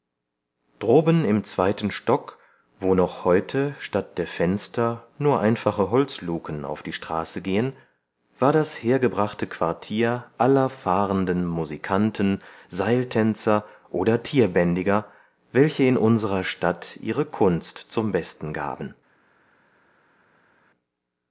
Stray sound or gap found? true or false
false